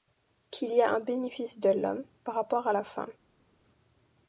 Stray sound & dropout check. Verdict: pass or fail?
pass